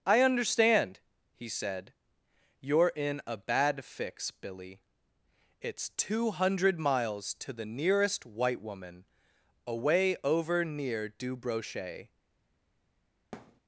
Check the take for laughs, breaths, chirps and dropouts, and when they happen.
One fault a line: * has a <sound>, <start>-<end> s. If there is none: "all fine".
* has a thud, 13.3-13.6 s